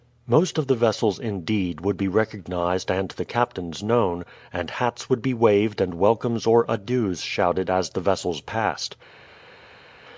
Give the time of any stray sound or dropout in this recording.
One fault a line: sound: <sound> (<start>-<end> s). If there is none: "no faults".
no faults